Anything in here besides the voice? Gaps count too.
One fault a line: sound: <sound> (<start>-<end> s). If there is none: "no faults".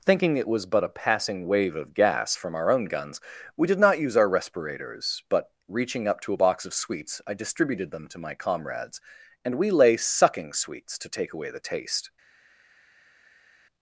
no faults